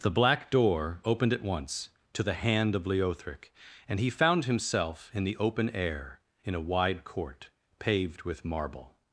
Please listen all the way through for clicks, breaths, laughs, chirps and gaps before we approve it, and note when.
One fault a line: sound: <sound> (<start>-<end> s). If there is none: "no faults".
no faults